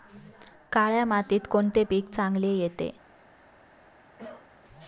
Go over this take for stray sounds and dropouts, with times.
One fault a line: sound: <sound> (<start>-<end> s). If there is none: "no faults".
sound: cough (4.2-4.5 s)